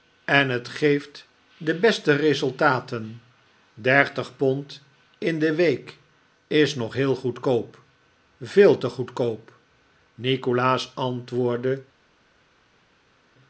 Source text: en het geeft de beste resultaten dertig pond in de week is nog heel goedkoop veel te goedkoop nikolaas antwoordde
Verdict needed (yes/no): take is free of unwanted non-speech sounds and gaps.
yes